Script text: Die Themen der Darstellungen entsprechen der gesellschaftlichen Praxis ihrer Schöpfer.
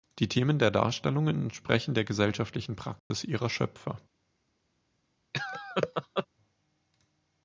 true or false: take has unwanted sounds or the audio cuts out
true